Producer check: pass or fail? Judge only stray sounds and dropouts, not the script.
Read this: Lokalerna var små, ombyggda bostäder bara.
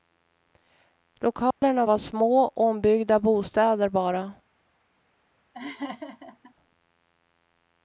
fail